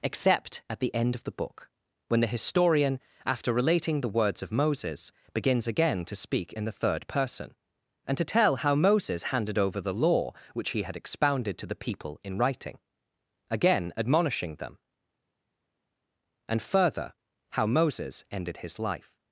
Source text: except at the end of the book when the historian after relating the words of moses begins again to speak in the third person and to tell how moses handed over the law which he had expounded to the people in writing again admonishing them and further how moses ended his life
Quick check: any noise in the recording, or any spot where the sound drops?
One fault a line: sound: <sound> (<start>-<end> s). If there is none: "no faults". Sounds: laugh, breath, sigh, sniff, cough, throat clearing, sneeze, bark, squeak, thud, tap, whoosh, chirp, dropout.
no faults